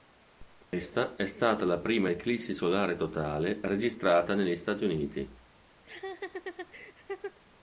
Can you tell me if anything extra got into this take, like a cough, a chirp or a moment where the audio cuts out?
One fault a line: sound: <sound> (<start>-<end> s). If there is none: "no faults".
sound: dropout (0.6-0.7 s)
sound: laugh (5.8-7.4 s)